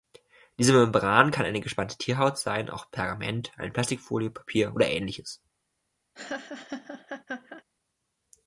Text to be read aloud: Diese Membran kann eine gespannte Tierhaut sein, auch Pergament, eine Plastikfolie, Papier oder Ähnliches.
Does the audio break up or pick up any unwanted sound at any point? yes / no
yes